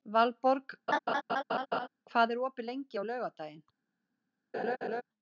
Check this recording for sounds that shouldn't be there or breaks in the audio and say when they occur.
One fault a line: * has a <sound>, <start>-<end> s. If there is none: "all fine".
* has a laugh, 0.9-1.9 s
* has a laugh, 4.5-5.0 s